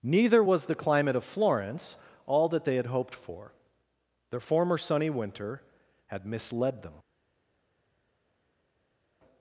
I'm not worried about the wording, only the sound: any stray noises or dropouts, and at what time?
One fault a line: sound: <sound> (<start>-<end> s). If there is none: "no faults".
no faults